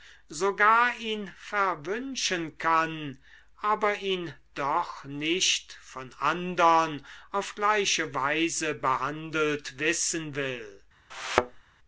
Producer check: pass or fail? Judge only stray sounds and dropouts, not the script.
fail